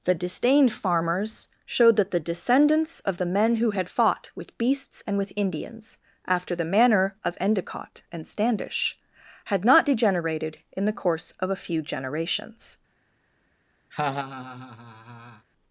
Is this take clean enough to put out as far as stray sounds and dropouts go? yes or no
no